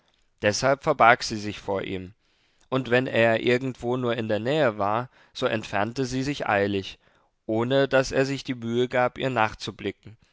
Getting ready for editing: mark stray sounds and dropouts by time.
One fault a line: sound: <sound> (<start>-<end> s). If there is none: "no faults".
no faults